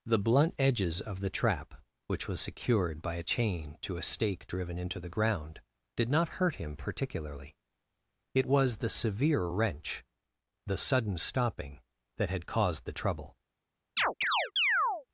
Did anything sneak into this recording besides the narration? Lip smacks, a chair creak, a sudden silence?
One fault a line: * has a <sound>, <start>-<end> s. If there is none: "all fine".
* has a chirp, 14.0-15.1 s